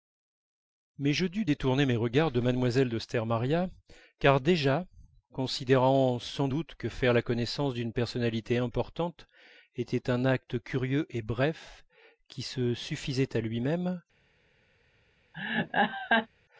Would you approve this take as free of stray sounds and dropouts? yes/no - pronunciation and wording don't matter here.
no